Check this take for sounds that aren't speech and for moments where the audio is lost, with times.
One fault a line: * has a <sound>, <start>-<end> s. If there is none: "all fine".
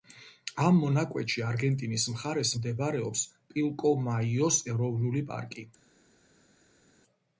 all fine